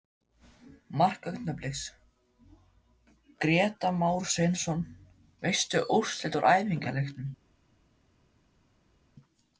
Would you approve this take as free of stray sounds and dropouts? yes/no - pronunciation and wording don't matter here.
yes